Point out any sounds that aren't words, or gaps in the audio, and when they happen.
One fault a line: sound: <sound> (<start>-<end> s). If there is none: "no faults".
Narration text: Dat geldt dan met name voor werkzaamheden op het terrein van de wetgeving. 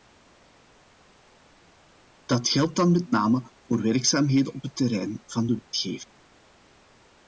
no faults